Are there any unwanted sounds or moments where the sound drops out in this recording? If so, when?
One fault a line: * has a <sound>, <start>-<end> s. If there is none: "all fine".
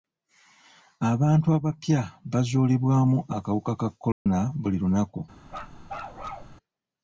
* has a dropout, 4.1-4.3 s
* has a bark, 5.5-6.6 s